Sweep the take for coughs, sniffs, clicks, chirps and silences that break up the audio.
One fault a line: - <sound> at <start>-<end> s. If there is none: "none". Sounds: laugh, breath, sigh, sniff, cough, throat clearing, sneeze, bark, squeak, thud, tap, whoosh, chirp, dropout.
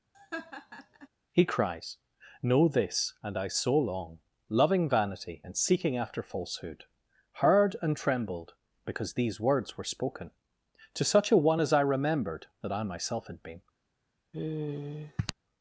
- laugh at 0.1-1.1 s
- sigh at 14.3-15.3 s